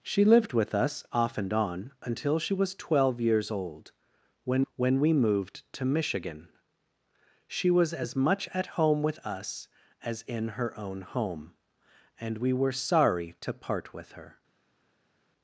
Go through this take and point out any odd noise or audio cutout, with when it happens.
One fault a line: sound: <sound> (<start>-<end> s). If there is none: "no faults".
no faults